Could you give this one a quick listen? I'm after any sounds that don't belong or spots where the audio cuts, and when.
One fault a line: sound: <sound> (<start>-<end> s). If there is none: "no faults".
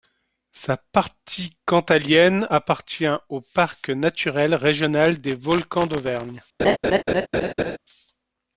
sound: laugh (6.6-7.8 s)